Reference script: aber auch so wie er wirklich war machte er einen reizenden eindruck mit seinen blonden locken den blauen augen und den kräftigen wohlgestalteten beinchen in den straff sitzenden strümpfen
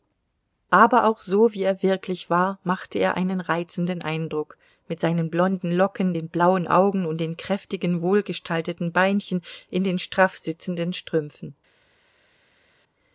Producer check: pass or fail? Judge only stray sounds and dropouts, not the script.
pass